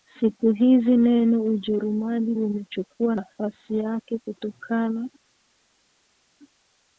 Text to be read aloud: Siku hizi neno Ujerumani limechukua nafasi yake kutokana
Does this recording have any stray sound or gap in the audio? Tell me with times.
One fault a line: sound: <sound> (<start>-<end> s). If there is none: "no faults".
no faults